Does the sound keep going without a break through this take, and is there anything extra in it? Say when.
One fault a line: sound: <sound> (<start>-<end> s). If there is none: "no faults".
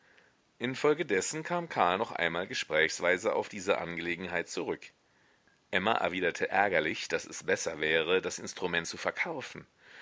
no faults